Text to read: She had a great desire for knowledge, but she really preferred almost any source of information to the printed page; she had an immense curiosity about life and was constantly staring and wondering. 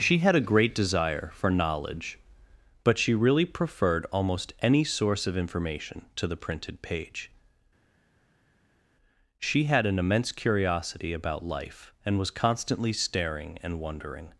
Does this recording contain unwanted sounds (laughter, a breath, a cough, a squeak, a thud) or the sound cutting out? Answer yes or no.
no